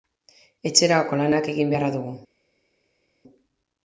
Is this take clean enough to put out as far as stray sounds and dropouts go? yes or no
yes